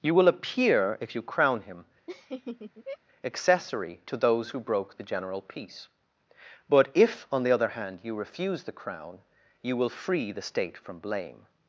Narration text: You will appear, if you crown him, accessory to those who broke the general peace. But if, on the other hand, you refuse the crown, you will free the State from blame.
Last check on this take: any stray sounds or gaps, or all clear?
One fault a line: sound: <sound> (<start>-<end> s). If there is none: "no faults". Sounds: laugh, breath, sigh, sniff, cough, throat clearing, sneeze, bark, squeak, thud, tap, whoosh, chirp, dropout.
sound: laugh (2.1-3.0 s)